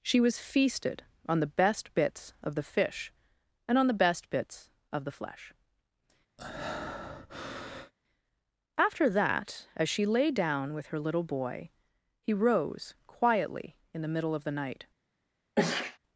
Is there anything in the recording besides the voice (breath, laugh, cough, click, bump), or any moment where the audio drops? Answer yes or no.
yes